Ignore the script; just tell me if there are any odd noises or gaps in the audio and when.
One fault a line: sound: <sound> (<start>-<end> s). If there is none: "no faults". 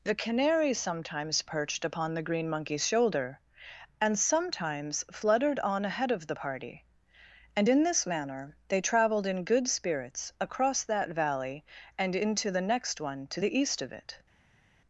no faults